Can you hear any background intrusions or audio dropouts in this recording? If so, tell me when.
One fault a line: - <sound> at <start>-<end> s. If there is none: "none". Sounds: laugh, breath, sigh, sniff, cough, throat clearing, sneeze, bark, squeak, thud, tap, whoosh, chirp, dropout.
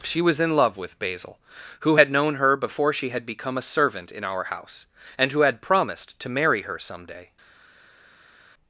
none